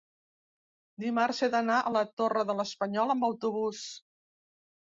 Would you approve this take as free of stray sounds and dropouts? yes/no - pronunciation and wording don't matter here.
yes